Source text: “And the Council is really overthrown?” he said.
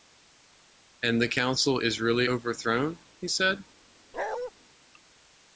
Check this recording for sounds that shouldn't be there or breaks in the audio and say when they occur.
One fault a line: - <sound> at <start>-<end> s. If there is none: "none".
- bark at 4.1-4.5 s